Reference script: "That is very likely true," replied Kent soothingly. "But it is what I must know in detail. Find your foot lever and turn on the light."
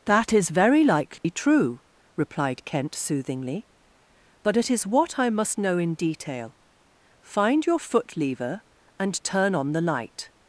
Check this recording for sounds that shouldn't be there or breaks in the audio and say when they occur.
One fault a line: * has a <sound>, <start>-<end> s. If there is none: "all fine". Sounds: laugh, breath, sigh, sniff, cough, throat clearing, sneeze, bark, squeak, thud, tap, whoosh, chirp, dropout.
* has a dropout, 1.2-1.2 s